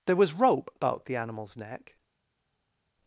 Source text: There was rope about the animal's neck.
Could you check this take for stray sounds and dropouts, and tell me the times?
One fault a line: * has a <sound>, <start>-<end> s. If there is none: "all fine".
all fine